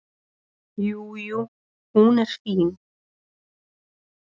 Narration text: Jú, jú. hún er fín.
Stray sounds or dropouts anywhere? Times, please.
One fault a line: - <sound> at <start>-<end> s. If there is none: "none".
none